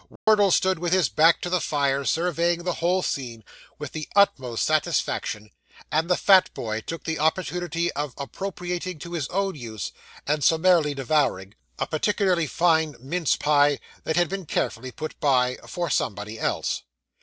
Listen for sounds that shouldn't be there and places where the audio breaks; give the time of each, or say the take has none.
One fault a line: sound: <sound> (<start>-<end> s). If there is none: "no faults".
sound: dropout (0.2-0.3 s)